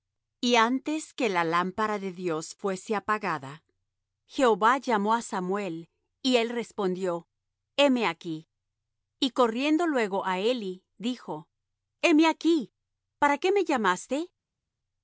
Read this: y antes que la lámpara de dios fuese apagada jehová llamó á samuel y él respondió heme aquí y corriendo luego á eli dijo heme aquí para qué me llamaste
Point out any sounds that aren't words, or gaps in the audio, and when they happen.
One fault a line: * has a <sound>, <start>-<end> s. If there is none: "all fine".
all fine